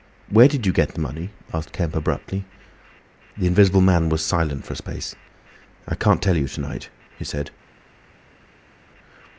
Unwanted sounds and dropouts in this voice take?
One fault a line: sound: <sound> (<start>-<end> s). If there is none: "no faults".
no faults